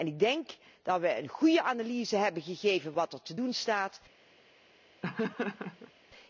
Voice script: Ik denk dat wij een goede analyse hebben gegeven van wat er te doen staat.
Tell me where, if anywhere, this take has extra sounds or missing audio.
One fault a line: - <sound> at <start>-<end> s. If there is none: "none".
- laugh at 5.0-5.9 s